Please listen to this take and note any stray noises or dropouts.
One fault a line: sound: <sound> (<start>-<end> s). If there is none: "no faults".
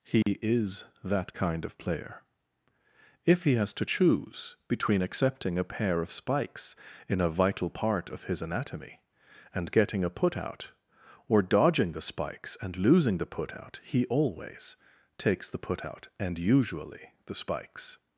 sound: dropout (0.2-0.3 s)